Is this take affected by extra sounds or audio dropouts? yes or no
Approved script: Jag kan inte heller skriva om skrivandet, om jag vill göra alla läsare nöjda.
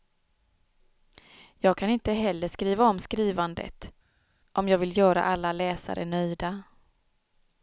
no